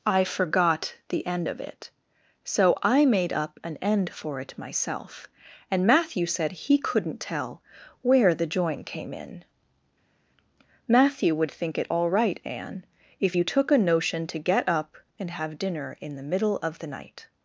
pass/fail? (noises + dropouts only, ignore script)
pass